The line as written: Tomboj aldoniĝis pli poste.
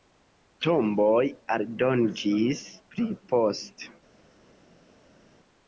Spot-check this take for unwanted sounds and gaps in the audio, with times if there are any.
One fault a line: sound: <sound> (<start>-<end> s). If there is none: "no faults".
no faults